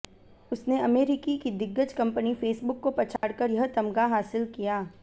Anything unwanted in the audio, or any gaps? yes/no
yes